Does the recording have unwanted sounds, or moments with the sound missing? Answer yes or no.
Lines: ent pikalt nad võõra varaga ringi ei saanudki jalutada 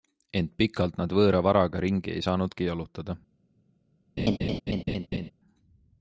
yes